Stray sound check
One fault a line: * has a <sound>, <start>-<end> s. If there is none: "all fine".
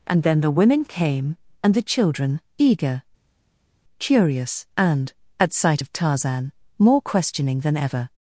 all fine